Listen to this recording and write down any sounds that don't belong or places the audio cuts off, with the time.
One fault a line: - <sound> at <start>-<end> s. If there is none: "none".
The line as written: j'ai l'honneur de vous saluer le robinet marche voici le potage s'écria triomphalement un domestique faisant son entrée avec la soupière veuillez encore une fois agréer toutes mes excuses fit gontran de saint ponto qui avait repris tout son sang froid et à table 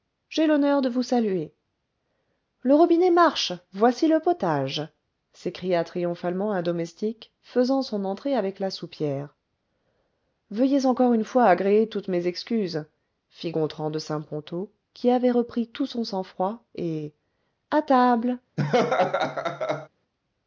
- laugh at 18.6-19.9 s